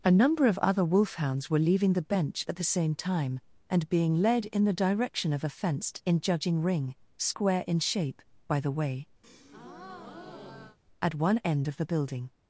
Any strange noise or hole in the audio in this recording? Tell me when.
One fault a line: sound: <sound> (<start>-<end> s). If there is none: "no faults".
sound: breath (9.2-10.8 s)